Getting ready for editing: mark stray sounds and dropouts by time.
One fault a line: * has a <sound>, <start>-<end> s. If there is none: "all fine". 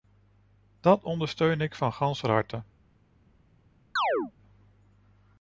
* has a chirp, 4.0-4.3 s